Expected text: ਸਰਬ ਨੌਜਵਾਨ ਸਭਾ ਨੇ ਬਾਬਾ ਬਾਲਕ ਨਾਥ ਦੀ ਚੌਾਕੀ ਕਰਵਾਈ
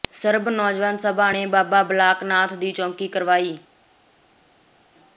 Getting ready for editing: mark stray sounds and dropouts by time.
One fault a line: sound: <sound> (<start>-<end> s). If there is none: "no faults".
no faults